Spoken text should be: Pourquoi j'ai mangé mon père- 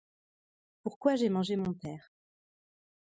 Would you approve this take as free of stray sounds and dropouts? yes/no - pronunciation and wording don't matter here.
yes